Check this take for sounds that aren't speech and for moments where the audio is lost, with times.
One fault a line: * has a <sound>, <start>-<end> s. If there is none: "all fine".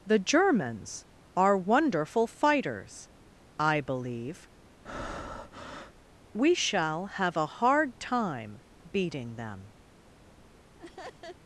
* has a breath, 4.9-6.0 s
* has a laugh, 10.8-11.4 s